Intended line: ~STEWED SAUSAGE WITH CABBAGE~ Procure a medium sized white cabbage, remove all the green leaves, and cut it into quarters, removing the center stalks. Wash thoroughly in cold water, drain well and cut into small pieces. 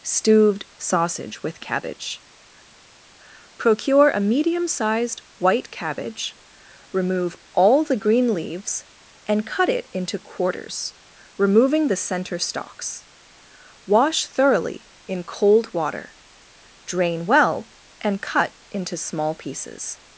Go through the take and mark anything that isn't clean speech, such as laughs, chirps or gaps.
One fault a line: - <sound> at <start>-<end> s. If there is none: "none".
none